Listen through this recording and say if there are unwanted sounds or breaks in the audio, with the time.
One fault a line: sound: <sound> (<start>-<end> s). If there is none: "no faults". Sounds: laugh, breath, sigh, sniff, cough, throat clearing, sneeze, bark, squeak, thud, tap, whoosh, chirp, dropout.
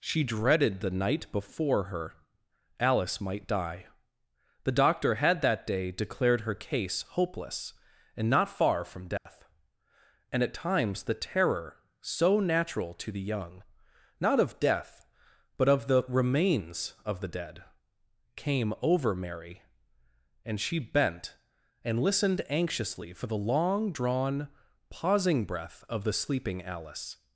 sound: dropout (9.2-9.3 s)